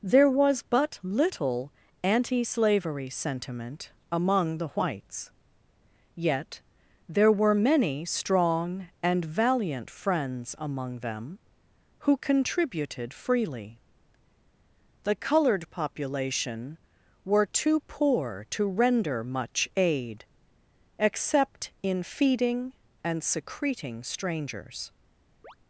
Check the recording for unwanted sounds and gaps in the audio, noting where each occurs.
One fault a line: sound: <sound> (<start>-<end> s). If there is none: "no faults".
sound: chirp (25.4-25.6 s)